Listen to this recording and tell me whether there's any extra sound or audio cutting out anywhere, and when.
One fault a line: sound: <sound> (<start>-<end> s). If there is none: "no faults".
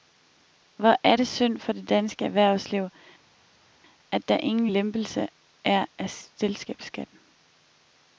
no faults